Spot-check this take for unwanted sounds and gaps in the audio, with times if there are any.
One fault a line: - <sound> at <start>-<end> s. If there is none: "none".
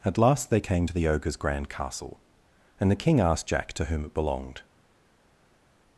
none